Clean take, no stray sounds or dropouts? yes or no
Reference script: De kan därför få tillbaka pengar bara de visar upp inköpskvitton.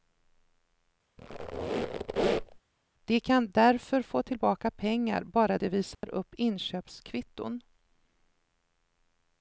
no